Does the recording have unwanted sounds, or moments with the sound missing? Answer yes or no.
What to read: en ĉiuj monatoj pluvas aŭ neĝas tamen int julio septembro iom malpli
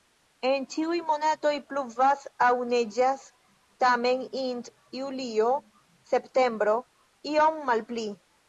no